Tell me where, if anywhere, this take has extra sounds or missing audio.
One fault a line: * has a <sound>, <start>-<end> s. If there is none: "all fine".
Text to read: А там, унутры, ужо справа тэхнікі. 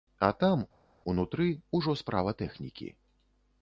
all fine